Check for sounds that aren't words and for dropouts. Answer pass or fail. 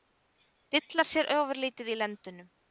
pass